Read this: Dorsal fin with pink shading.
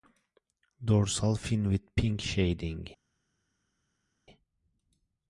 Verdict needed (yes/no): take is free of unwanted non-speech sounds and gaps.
yes